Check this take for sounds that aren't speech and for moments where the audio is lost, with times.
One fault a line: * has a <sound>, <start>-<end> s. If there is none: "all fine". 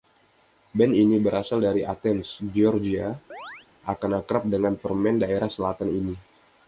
* has a chirp, 3.3-3.7 s